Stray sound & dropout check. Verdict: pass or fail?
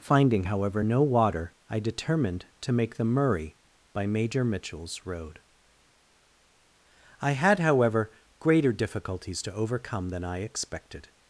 pass